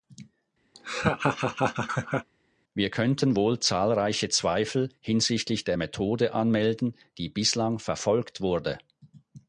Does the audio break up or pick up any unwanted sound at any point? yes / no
yes